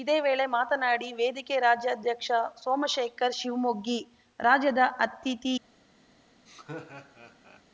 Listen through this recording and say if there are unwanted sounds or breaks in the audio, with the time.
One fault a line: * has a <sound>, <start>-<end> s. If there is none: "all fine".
* has a laugh, 6.5-7.6 s